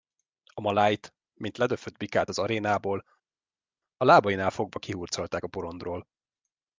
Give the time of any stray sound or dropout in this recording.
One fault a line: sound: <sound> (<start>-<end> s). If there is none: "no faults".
no faults